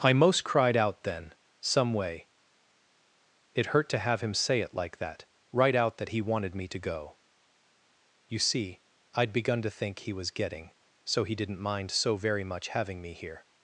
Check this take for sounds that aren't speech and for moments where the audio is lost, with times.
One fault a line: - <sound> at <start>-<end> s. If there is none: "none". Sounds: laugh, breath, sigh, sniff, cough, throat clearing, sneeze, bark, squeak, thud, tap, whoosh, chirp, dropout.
none